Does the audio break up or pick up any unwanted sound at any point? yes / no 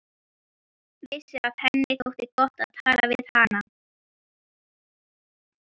no